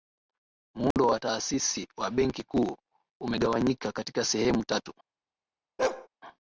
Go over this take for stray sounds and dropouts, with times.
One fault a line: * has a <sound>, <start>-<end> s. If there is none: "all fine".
* has a dropout, 0.9-1.0 s
* has a bark, 5.8-6.1 s